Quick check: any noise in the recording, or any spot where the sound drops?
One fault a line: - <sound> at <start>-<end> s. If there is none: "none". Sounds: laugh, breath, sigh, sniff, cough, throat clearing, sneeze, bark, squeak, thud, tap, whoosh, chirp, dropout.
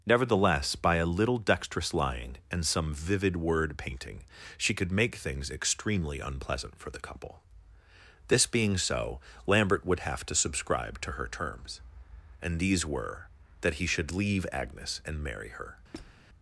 - squeak at 15.9-16.2 s